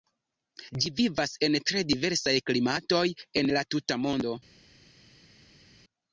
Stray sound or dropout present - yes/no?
no